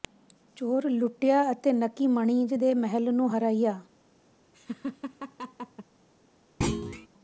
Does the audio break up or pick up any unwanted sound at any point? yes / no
yes